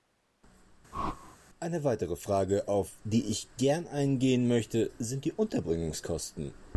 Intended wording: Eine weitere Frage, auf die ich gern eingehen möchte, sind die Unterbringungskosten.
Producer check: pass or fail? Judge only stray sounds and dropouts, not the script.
fail